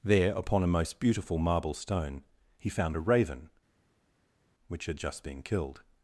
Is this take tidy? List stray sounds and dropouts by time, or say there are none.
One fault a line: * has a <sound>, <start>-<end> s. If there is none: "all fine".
all fine